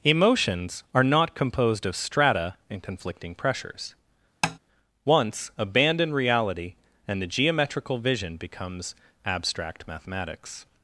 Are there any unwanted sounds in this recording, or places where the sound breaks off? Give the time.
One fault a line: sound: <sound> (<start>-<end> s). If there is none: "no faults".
sound: tap (4.4-4.6 s)